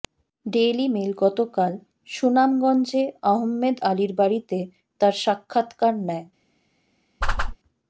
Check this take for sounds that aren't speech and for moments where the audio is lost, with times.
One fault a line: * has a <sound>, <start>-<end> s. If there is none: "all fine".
* has a whoosh, 7.2-7.6 s